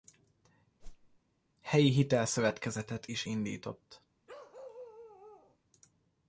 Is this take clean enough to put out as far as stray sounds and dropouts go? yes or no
no